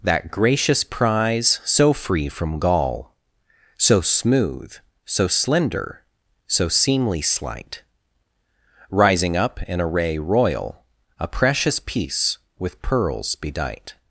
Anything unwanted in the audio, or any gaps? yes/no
no